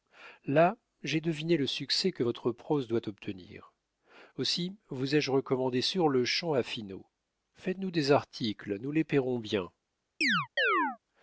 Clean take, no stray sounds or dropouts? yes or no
no